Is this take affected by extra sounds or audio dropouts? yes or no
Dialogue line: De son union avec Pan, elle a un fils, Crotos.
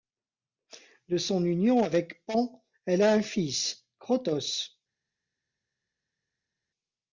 no